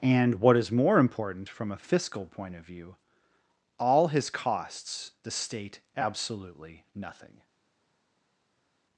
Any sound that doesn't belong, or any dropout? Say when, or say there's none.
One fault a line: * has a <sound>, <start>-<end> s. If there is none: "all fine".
all fine